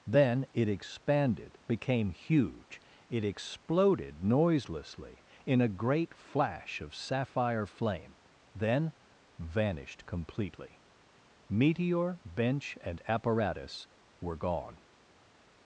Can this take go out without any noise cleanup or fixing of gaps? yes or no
yes